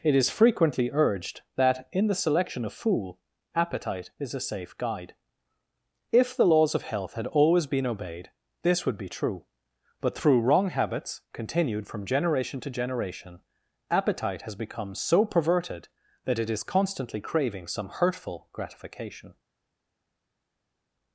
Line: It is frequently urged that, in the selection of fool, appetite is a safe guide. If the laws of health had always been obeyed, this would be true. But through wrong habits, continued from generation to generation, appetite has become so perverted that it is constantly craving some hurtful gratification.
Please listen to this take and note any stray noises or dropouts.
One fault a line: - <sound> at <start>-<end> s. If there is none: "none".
none